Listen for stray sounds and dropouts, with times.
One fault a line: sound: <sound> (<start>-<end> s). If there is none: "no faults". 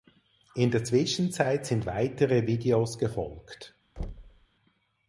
sound: thud (4.0-4.5 s)